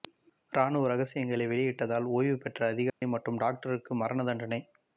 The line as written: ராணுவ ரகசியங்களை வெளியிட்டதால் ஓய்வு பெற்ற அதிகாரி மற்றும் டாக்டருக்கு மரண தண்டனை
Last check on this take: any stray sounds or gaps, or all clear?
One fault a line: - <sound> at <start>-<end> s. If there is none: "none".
- dropout at 2.9-3.0 s